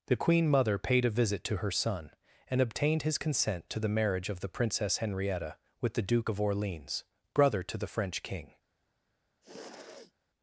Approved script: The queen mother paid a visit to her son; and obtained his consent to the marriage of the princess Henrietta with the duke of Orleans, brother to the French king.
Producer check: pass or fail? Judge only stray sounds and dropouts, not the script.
fail